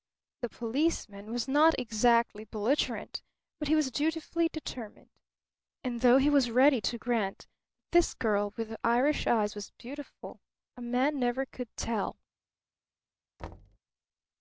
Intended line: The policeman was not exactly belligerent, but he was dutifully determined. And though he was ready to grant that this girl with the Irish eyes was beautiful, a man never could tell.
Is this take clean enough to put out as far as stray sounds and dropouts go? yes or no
no